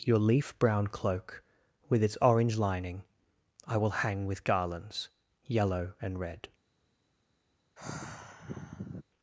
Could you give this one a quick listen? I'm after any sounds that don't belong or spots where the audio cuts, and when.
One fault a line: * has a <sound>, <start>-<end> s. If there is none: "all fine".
* has a sigh, 7.8-9.0 s